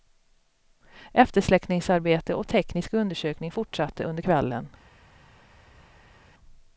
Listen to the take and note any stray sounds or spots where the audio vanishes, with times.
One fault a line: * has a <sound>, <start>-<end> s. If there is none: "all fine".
all fine